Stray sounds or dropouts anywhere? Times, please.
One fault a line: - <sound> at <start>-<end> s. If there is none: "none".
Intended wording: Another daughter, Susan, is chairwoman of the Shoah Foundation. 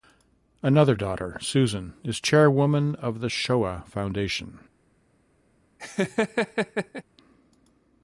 - laugh at 5.8-7.0 s